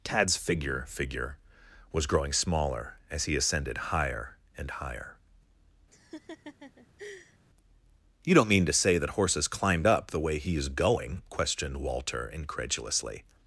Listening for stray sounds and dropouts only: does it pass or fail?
fail